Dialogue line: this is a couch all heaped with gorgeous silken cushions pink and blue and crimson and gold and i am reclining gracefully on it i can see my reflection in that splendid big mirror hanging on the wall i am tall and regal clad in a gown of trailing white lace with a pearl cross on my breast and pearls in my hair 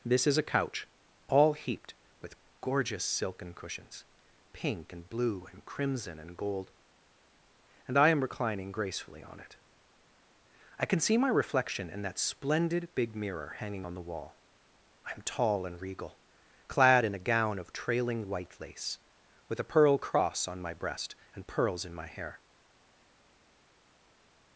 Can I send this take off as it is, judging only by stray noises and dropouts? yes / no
yes